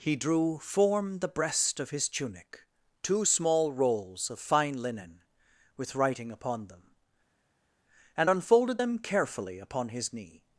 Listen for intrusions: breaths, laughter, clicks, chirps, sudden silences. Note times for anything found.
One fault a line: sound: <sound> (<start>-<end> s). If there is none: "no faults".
no faults